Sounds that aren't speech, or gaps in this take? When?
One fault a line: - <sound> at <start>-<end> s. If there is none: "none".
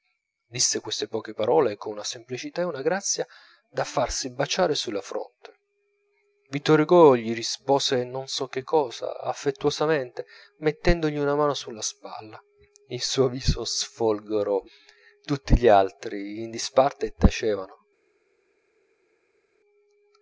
none